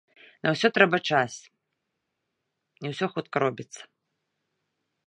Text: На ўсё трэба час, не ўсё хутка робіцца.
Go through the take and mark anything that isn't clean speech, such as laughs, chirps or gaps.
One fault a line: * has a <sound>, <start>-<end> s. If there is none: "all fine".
all fine